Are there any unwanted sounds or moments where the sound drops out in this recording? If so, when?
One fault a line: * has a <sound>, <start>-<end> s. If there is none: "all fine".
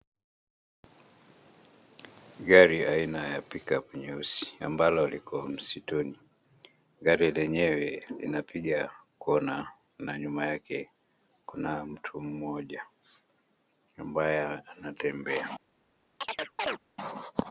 * has a chirp, 16.2-16.8 s